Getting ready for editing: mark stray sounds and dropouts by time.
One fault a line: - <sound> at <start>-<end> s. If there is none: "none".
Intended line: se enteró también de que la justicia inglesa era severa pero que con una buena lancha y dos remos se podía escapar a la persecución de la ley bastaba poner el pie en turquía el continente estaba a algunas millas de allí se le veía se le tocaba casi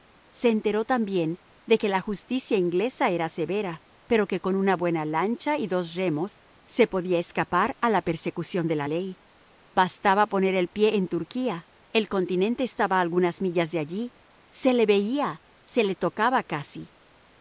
none